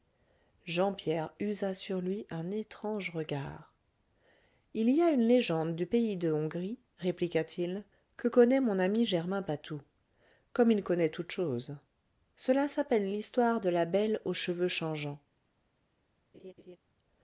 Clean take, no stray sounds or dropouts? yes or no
no